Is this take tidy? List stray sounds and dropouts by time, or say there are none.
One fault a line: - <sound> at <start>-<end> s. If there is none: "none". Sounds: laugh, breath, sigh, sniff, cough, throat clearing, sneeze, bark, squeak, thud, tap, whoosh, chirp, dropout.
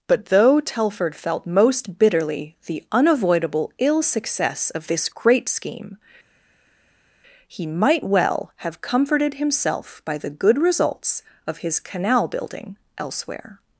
none